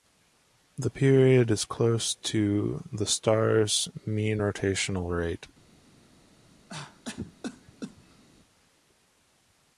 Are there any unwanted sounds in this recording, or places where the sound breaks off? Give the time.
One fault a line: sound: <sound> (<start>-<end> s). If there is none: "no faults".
sound: cough (6.7-8.2 s)